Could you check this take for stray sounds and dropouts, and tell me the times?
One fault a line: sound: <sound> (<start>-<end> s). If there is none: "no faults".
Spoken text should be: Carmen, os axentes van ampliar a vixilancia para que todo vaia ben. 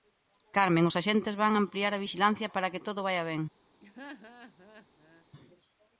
sound: laugh (3.8-5.3 s)